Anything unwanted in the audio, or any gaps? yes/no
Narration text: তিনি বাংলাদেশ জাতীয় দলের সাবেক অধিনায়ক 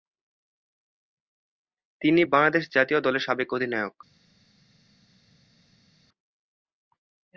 no